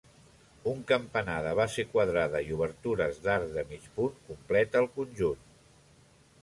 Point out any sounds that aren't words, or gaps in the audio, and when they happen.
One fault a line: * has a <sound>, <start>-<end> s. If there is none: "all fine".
all fine